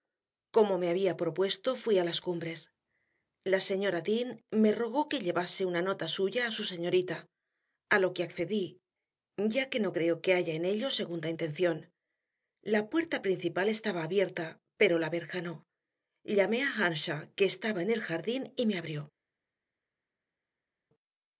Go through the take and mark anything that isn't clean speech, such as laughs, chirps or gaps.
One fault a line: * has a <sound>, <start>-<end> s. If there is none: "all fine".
all fine